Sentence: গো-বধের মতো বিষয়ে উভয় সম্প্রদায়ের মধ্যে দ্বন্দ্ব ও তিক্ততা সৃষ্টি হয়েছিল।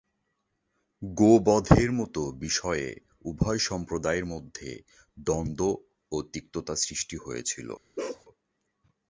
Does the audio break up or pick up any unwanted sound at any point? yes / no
yes